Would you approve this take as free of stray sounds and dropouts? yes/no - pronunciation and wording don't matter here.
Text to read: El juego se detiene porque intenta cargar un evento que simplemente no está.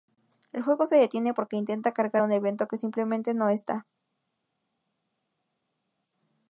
yes